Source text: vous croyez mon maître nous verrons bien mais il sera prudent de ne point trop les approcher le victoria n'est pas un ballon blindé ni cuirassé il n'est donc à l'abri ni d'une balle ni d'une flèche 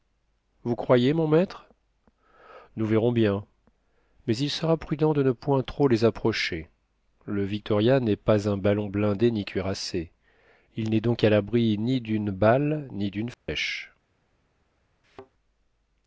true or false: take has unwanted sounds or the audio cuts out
true